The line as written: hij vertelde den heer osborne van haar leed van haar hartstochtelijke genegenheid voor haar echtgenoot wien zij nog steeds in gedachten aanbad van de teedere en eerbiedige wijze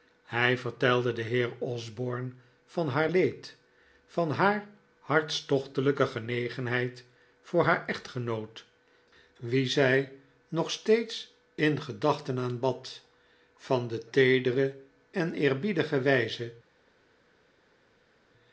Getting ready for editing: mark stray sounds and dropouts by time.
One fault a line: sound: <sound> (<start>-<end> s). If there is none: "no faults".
no faults